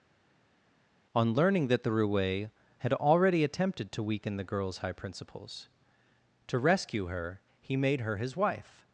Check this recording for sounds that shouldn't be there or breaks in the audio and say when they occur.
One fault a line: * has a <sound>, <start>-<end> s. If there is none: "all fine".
all fine